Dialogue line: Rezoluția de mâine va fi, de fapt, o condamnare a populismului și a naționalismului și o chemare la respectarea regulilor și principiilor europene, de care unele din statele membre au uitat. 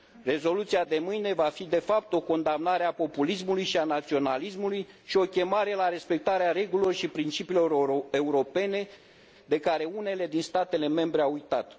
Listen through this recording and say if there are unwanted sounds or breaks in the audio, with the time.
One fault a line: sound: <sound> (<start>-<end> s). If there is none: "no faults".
no faults